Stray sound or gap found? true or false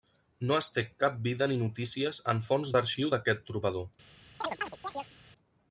true